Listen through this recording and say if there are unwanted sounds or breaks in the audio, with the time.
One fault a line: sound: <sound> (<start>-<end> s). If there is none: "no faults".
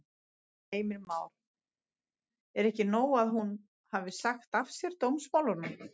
no faults